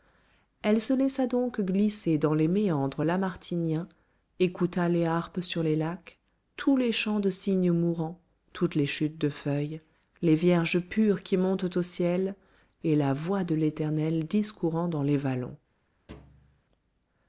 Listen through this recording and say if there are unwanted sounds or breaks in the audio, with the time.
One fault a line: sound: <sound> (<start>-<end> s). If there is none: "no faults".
sound: thud (16.1-16.6 s)